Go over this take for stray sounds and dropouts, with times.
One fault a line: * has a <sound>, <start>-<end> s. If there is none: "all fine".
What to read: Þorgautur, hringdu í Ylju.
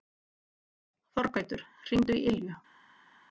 all fine